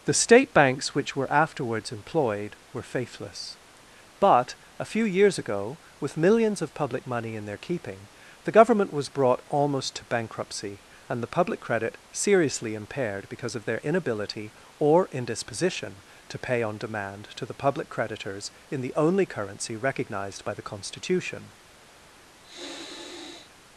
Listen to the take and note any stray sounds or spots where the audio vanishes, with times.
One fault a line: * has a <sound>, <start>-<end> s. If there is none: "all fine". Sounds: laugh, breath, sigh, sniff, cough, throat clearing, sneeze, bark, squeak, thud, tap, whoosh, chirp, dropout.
* has a sniff, 22.4-23.5 s